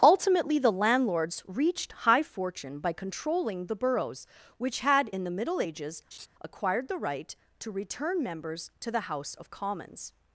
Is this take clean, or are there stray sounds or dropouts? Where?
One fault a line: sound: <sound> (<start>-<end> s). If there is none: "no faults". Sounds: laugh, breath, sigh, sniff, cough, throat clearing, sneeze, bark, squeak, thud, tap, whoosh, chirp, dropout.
sound: laugh (6.1-6.3 s)